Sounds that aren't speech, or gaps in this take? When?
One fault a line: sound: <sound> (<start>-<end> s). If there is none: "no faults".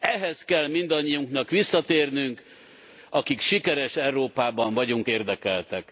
no faults